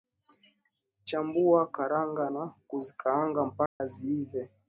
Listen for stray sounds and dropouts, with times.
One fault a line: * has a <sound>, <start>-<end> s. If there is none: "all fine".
* has a dropout, 3.7-3.8 s